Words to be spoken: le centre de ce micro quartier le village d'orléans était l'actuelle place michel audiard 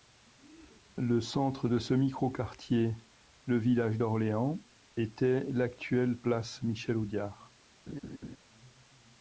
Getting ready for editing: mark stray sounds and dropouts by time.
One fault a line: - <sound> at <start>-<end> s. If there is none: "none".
- laugh at 7.9-8.4 s